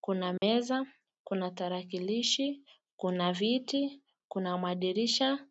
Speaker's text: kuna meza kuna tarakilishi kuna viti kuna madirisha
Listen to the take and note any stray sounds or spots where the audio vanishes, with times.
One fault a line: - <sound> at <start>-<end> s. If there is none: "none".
- dropout at 0.4-0.4 s